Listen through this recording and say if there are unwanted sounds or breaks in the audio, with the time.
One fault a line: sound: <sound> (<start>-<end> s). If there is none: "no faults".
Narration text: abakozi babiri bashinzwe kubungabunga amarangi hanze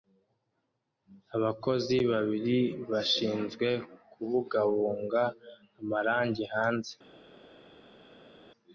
no faults